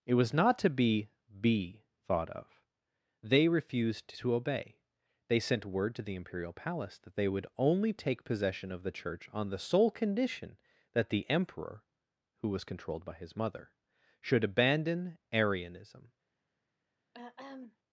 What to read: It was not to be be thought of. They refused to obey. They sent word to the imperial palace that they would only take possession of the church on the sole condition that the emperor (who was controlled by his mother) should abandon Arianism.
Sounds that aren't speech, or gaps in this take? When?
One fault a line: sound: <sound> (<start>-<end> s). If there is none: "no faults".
sound: throat clearing (17.1-17.8 s)